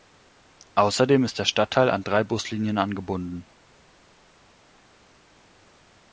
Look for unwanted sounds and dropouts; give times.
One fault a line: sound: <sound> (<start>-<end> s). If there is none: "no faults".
no faults